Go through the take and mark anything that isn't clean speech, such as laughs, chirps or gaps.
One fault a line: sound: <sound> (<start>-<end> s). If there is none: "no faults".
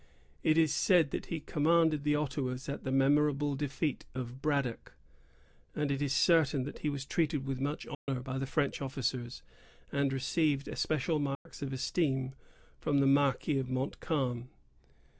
sound: dropout (7.9-8.1 s)
sound: dropout (11.3-11.5 s)